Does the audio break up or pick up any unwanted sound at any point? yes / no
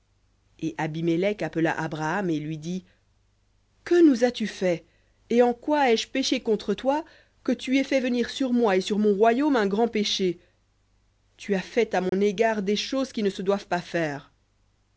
yes